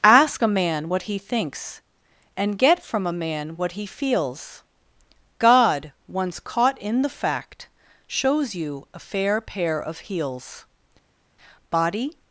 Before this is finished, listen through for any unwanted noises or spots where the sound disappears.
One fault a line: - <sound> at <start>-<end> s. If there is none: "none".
none